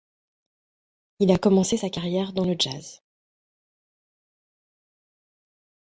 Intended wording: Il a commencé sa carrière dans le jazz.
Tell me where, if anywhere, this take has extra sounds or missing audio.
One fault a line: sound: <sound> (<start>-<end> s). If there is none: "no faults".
no faults